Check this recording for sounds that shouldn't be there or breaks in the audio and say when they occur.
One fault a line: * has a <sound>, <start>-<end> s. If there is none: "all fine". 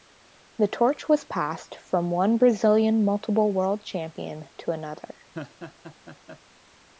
* has a laugh, 5.3-6.4 s